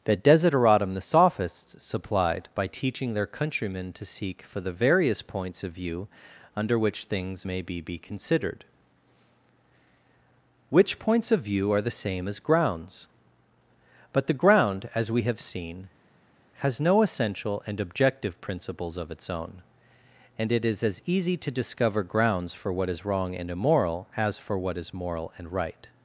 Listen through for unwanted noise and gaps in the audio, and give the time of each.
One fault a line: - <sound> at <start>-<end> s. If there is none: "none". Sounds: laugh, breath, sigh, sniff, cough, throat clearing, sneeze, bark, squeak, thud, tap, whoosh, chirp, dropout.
none